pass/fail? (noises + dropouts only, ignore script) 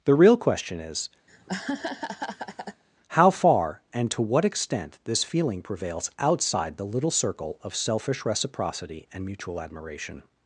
fail